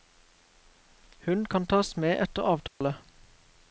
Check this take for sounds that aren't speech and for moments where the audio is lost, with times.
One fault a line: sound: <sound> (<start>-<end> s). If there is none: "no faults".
sound: dropout (2.7-2.8 s)